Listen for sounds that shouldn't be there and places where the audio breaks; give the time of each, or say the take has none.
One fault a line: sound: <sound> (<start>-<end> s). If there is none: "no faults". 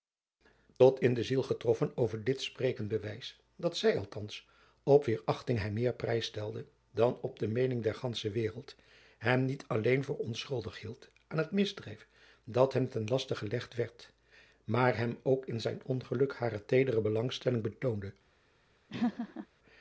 sound: laugh (18.9-19.5 s)